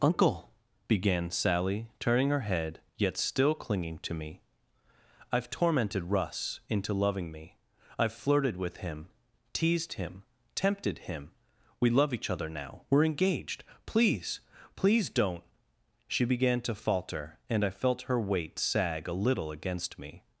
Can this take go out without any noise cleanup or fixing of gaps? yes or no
yes